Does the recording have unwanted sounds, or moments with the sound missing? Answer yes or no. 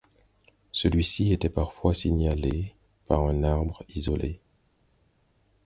no